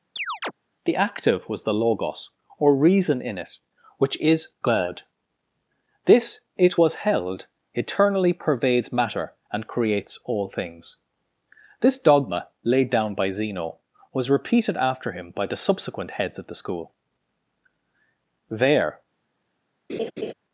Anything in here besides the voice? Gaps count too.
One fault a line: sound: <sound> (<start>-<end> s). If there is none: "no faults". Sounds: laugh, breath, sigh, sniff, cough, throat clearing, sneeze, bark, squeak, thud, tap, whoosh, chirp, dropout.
sound: chirp (0.2-0.5 s)
sound: laugh (19.9-20.3 s)